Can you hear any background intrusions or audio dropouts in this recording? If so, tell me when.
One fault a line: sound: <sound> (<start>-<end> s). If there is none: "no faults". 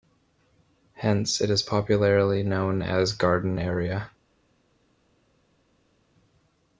no faults